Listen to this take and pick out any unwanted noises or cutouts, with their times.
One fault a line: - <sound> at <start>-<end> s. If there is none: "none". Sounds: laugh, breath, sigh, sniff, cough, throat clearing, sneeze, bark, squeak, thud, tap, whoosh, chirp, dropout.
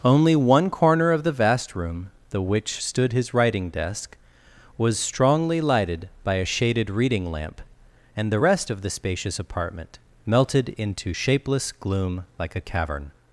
none